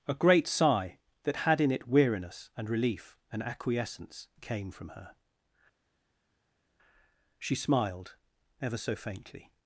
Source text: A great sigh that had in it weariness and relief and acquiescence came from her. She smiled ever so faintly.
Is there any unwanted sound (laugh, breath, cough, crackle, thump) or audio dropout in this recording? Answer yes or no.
no